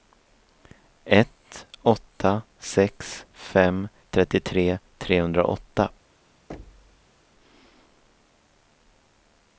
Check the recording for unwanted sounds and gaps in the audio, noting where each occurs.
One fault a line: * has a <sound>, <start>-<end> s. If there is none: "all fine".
* has a thud, 6.5-7.1 s